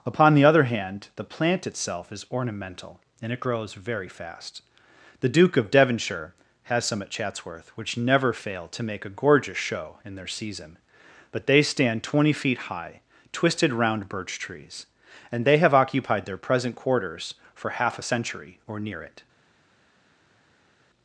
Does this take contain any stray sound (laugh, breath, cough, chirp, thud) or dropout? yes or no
no